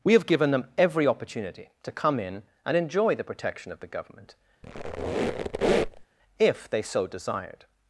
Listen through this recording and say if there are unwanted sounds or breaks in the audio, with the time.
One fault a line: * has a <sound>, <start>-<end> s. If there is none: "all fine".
* has a squeak, 4.6-6.1 s